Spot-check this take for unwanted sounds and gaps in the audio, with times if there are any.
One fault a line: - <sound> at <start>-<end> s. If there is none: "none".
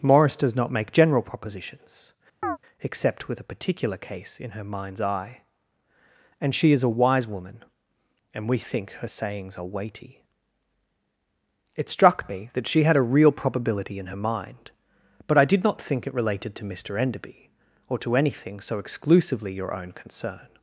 - chirp at 2.4-2.6 s